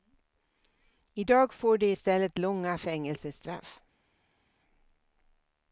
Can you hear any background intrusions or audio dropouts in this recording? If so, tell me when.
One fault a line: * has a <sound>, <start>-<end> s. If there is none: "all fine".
all fine